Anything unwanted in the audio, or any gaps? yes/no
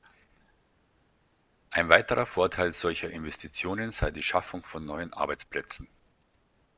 no